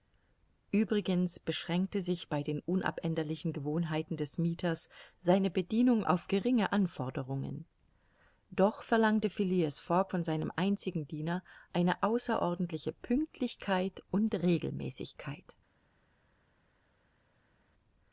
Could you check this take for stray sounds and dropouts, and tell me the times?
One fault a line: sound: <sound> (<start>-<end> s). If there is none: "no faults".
no faults